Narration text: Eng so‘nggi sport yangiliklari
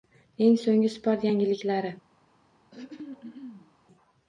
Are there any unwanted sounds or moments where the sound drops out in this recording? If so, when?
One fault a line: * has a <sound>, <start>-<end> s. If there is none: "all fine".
* has a throat clearing, 2.7-3.7 s